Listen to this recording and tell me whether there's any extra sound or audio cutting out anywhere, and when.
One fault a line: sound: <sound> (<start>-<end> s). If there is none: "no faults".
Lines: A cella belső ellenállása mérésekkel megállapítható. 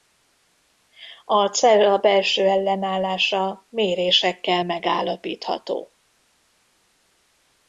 no faults